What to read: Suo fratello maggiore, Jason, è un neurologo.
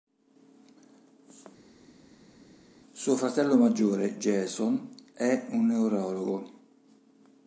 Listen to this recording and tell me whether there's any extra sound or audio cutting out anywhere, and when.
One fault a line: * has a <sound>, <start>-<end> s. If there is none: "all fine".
all fine